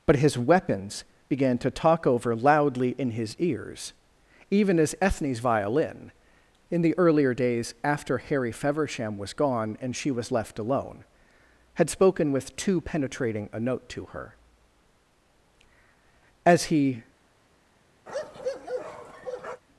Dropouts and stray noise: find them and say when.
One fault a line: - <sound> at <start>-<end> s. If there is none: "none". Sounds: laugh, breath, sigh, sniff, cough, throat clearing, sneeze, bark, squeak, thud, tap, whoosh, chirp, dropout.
- bark at 18.1-19.6 s